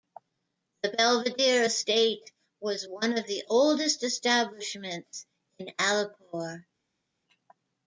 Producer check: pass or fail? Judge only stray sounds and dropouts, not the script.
pass